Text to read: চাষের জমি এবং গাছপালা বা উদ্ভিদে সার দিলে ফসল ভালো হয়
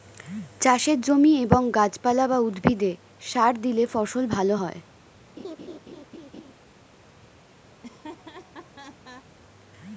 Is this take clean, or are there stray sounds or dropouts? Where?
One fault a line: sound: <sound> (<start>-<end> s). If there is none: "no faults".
sound: laugh (5.4-6.5 s)
sound: laugh (7.7-9.3 s)